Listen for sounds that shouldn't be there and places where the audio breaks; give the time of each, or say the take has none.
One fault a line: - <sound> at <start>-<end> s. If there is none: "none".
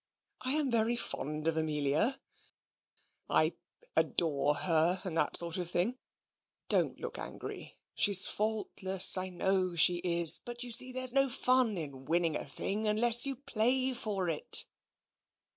none